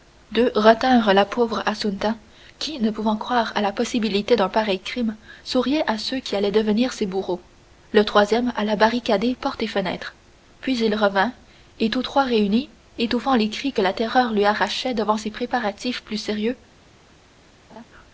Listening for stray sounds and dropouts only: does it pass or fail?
fail